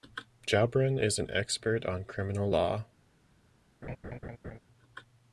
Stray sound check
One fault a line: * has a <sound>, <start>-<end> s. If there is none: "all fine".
* has a laugh, 3.8-4.6 s